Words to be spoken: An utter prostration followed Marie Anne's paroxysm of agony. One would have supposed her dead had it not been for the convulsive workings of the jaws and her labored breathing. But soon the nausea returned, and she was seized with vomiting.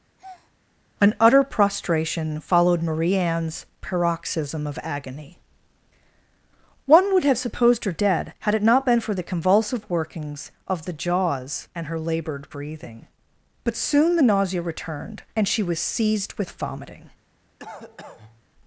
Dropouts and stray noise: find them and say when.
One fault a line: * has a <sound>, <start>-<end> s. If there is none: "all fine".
* has a breath, 0.2-0.5 s
* has a cough, 17.6-18.4 s